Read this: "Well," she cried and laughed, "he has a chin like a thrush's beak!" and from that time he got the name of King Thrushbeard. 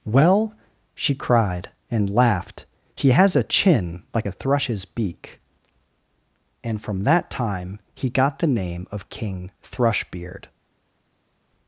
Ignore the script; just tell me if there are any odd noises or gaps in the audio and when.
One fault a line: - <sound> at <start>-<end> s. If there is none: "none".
none